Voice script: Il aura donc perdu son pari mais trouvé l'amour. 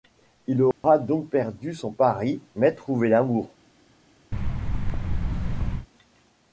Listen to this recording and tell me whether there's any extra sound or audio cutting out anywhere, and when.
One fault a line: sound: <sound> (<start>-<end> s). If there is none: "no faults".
sound: dropout (0.7-0.8 s)
sound: thud (4.3-5.9 s)